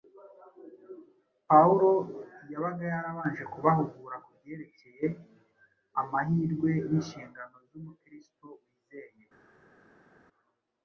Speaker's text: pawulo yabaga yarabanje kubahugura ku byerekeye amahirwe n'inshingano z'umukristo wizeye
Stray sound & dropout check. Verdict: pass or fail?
pass